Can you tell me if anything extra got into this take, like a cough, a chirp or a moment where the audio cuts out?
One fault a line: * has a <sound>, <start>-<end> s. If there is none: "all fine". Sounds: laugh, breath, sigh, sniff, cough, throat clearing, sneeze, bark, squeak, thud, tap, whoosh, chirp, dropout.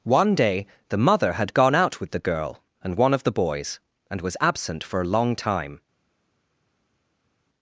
all fine